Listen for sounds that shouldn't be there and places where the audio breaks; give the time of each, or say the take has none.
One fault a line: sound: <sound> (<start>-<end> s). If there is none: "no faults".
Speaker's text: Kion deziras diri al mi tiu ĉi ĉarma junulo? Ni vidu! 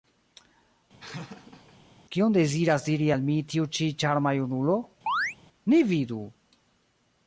sound: laugh (1.0-1.8 s)
sound: chirp (5.1-5.4 s)